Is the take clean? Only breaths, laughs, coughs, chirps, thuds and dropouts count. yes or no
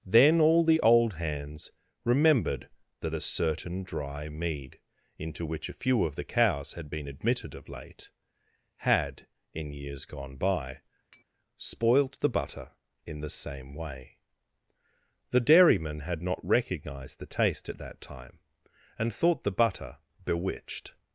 no